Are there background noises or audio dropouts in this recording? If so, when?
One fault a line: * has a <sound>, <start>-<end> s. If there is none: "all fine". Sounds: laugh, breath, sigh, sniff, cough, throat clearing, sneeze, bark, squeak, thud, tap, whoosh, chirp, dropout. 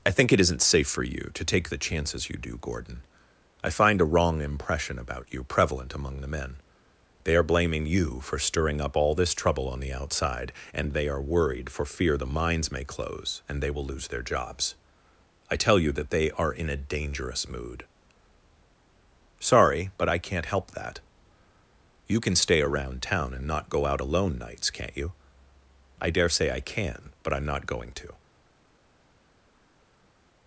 all fine